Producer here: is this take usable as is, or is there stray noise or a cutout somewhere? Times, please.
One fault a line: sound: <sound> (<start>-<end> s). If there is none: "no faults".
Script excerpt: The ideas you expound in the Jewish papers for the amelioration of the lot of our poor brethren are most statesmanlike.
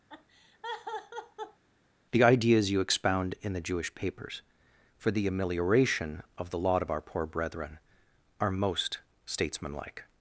sound: laugh (0.1-1.6 s)